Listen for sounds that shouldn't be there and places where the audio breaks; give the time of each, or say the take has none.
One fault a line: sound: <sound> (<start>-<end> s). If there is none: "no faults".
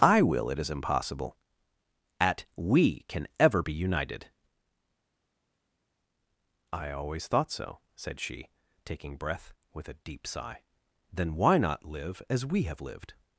no faults